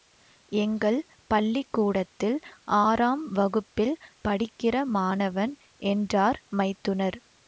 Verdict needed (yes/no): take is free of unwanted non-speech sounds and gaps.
yes